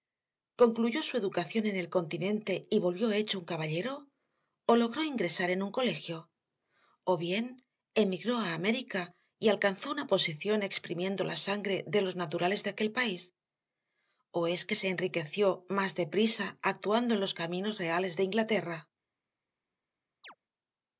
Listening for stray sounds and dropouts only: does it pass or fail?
fail